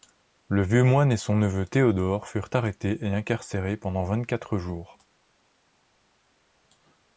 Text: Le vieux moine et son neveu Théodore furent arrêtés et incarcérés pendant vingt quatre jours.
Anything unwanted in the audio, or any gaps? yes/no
no